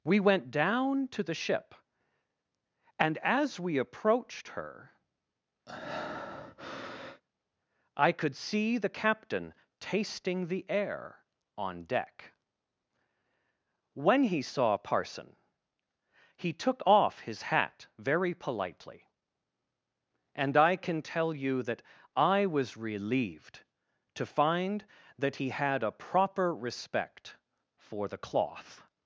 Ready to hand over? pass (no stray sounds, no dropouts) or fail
fail